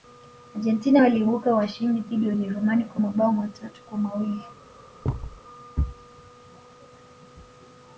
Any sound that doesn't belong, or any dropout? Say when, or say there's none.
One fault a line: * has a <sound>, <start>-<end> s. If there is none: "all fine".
* has a thud, 5.0-5.4 s